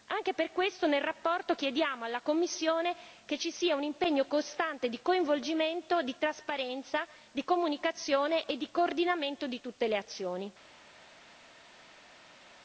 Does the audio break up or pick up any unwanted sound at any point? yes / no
no